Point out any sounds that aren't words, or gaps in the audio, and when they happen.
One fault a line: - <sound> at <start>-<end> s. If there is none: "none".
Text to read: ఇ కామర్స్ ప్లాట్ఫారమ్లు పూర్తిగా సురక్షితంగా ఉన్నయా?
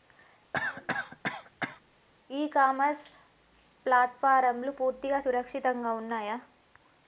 - cough at 0.5-1.8 s